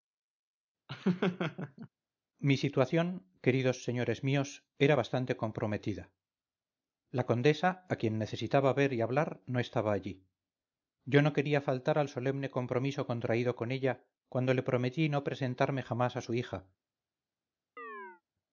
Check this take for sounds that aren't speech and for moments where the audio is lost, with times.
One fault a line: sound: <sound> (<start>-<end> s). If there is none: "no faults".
sound: laugh (0.9-1.9 s)
sound: chirp (17.8-18.2 s)